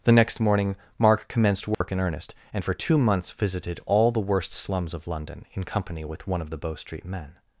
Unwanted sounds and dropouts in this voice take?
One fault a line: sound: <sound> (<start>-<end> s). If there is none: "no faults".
sound: dropout (1.7-1.8 s)